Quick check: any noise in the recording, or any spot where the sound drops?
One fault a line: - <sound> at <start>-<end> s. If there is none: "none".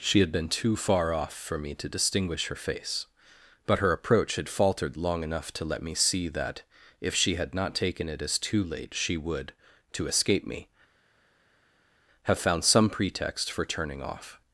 none